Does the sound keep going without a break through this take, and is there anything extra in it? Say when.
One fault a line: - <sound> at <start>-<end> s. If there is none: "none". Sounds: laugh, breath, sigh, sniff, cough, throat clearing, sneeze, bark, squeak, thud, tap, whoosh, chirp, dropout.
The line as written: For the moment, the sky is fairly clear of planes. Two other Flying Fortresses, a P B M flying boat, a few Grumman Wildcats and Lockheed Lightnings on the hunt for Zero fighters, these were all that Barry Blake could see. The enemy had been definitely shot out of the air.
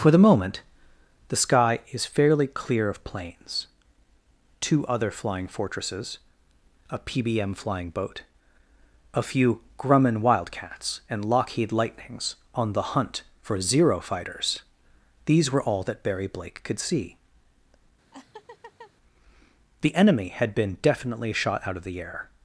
- laugh at 18.1-18.9 s